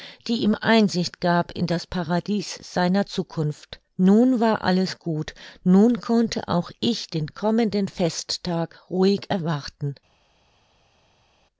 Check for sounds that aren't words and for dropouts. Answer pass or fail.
pass